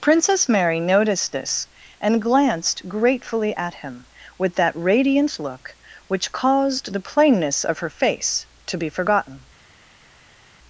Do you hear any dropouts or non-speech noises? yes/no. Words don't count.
no